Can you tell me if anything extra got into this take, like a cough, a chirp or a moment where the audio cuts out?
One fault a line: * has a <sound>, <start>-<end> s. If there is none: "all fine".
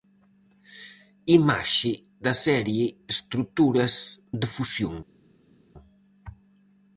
all fine